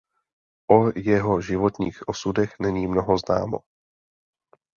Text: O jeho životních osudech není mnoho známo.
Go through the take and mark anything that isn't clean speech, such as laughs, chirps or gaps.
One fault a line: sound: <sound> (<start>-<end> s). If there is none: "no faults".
no faults